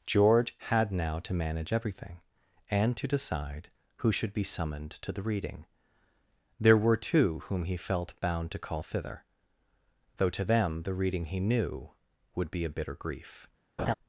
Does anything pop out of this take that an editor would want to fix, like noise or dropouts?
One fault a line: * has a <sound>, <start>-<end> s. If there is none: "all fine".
* has a laugh, 13.8-13.9 s